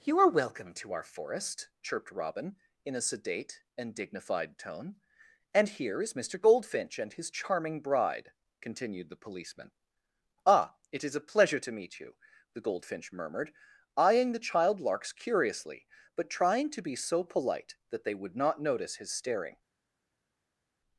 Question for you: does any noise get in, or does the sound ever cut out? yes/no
no